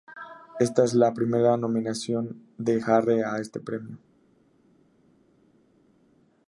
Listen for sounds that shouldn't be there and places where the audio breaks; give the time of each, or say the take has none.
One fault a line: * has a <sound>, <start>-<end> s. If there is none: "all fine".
all fine